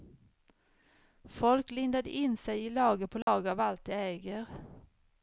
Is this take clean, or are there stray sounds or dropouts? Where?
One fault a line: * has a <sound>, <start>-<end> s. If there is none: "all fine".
* has a dropout, 3.2-3.3 s